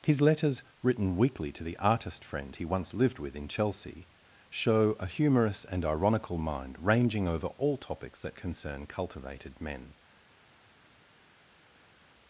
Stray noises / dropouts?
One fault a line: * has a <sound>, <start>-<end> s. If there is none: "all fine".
all fine